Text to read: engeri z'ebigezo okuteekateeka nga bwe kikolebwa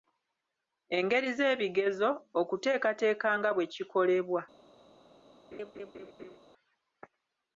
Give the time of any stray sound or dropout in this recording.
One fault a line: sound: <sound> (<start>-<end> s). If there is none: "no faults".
sound: laugh (5.5-6.4 s)